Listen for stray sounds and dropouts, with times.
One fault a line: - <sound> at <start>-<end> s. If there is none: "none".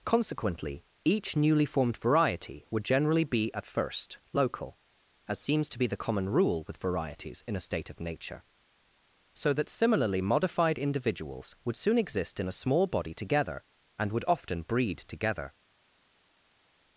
none